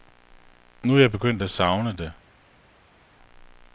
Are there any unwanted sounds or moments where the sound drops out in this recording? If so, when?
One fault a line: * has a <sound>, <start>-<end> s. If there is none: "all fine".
all fine